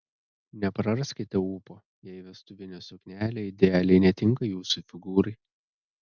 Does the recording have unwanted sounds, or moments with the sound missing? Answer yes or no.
no